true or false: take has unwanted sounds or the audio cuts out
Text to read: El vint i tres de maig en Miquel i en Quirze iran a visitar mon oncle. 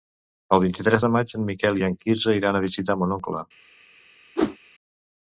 true